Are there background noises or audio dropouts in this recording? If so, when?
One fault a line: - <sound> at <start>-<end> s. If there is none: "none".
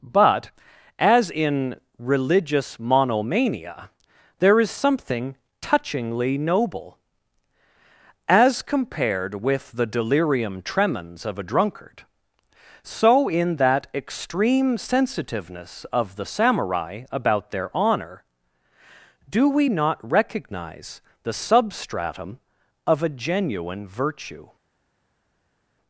none